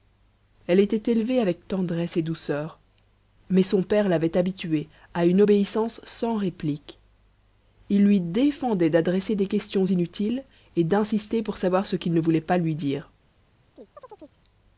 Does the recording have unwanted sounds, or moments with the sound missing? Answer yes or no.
yes